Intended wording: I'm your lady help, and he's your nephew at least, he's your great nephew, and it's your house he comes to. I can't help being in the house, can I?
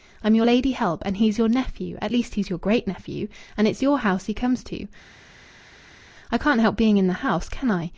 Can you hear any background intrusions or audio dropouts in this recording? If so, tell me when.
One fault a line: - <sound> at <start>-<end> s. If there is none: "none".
none